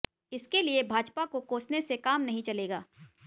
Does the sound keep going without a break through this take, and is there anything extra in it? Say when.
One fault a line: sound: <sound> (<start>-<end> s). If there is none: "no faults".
no faults